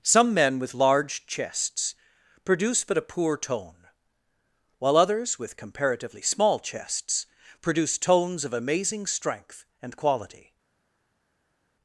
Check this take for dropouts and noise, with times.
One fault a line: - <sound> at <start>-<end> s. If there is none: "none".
none